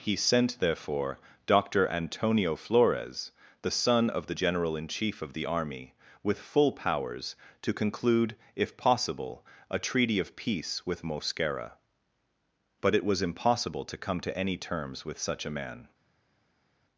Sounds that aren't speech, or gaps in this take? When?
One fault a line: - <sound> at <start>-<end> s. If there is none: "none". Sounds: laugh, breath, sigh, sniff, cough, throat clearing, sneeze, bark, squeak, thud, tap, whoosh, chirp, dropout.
none